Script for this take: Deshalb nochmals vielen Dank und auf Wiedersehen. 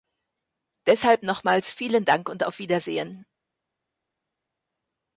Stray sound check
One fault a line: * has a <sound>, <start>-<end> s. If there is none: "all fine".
all fine